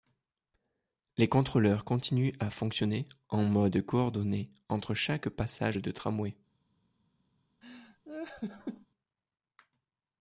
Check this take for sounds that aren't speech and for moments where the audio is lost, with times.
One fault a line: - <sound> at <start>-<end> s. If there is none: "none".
- laugh at 7.6-8.9 s